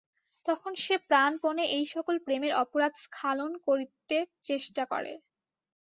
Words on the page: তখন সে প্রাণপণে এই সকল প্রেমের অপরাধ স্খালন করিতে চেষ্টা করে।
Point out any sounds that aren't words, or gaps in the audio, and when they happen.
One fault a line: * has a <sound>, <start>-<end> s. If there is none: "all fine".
all fine